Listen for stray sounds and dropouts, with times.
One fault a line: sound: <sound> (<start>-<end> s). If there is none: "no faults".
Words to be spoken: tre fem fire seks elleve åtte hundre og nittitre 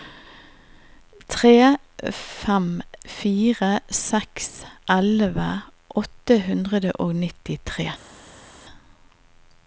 no faults